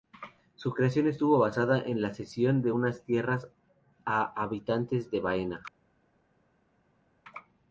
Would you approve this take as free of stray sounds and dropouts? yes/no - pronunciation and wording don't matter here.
yes